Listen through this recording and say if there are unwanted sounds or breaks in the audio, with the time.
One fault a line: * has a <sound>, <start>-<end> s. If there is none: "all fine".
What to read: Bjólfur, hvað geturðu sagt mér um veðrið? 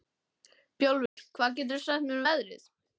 * has a dropout, 1.1-1.2 s